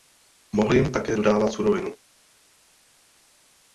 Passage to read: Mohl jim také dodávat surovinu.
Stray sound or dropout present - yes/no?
no